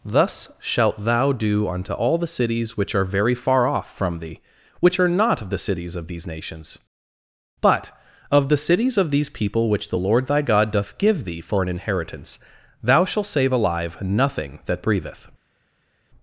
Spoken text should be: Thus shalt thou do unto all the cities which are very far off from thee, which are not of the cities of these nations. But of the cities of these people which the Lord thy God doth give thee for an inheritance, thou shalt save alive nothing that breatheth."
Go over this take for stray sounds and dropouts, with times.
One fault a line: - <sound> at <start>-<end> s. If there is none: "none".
none